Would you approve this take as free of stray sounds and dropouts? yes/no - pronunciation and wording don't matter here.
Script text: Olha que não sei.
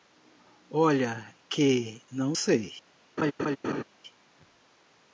no